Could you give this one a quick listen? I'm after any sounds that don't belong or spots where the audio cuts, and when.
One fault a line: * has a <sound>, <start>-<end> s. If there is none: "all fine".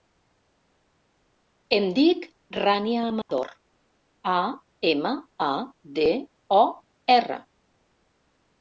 * has a dropout, 3.2-3.3 s